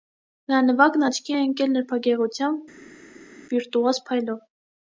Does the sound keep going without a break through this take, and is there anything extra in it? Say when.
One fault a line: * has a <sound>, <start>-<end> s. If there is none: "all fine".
all fine